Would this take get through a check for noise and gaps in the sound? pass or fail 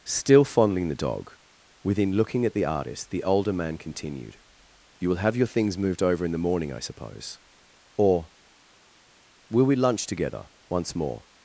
pass